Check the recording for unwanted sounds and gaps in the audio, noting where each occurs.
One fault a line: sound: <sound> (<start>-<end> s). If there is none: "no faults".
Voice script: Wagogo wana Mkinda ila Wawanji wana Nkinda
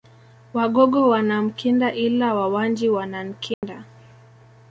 sound: dropout (3.5-3.6 s)